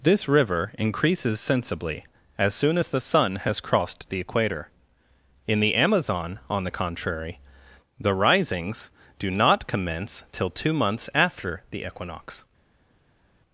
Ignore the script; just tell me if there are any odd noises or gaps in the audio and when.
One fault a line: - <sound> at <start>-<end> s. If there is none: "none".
none